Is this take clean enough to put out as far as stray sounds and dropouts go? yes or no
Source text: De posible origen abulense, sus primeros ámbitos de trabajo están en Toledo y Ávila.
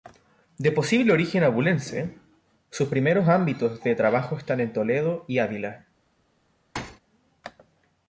no